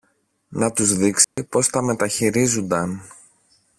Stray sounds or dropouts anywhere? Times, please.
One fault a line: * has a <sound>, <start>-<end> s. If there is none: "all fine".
* has a dropout, 1.2-1.4 s